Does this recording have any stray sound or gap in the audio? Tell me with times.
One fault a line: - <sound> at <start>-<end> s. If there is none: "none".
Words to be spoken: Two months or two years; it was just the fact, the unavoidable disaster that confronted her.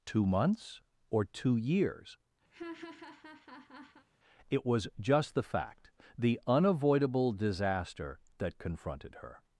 - laugh at 2.5-4.1 s